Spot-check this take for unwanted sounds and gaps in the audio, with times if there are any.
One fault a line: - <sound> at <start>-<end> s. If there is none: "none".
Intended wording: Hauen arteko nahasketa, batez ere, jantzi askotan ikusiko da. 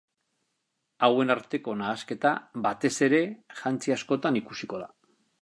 none